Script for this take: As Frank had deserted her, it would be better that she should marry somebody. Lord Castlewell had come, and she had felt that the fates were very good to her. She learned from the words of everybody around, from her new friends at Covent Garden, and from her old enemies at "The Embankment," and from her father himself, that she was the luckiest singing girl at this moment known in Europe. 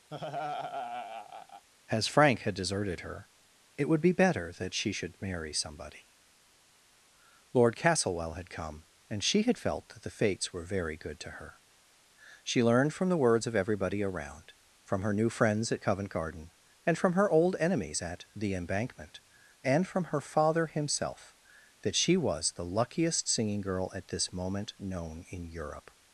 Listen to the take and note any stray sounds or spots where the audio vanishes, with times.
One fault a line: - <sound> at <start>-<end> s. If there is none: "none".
- laugh at 0.1-1.7 s